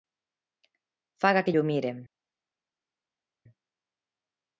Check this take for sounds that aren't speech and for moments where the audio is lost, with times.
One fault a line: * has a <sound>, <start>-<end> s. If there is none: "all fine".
all fine